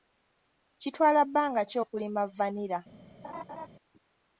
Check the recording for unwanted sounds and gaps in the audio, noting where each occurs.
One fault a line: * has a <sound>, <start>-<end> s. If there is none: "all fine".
* has a laugh, 3.2-3.7 s